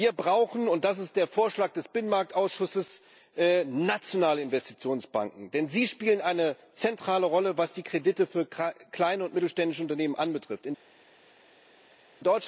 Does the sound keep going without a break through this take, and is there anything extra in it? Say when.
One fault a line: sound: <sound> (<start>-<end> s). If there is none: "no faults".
no faults